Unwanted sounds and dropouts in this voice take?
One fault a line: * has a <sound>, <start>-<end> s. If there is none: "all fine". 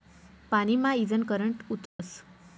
* has a dropout, 1.9-2.0 s